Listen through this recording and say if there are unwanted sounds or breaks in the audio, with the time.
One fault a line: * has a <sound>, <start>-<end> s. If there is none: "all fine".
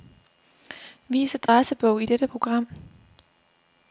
* has a dropout, 1.5-1.5 s